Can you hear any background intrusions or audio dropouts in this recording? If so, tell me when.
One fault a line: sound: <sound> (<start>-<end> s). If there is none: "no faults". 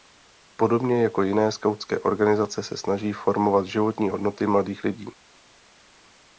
no faults